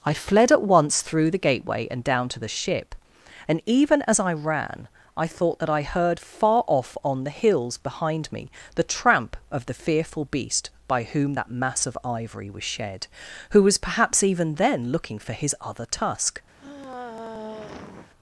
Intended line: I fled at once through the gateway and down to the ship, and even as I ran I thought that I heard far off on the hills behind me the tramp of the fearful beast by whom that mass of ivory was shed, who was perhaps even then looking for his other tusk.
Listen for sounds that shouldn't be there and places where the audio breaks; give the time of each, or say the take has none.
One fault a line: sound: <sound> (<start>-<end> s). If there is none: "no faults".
sound: sigh (16.6-18.1 s)